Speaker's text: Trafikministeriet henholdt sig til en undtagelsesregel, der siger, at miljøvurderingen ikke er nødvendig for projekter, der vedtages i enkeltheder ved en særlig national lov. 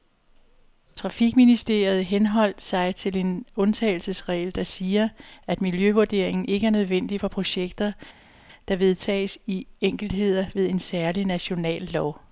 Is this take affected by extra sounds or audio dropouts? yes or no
no